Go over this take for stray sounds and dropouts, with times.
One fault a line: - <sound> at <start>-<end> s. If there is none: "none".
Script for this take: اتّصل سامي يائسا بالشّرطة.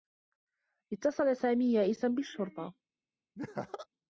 - laugh at 3.3-3.9 s